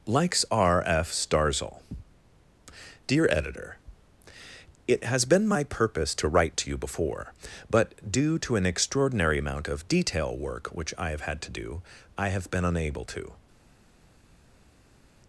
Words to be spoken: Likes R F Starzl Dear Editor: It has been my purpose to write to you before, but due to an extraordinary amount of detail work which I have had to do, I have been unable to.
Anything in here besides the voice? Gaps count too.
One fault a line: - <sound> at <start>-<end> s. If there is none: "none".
none